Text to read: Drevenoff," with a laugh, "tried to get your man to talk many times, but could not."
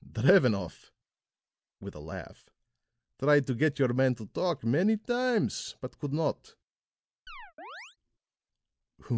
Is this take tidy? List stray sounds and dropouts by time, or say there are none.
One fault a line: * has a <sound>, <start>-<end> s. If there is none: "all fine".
* has a chirp, 7.3-8.0 s